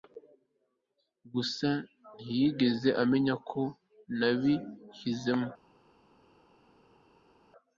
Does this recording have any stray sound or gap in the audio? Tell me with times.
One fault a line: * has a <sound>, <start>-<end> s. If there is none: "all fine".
all fine